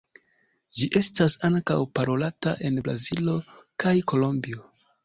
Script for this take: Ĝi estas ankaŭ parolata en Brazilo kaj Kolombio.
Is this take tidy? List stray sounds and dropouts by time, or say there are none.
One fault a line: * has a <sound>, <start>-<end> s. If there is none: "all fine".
all fine